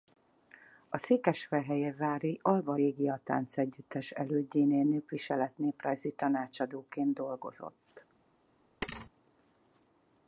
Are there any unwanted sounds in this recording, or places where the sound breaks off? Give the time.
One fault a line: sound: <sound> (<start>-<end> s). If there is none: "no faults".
sound: thud (8.8-9.1 s)